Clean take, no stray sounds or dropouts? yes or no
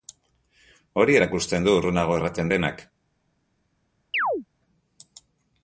no